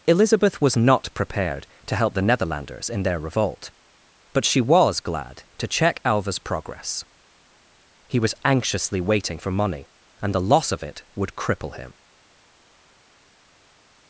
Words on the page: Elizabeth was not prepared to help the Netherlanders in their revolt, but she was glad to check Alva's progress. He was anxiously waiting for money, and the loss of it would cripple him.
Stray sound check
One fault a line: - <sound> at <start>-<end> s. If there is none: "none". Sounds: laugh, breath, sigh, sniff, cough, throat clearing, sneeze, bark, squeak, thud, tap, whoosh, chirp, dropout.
none